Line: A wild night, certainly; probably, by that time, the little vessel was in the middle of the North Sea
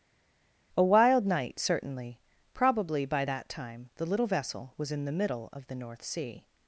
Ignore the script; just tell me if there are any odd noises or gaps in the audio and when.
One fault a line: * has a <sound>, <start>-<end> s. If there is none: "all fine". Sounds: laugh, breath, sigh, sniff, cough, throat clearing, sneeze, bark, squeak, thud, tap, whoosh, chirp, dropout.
all fine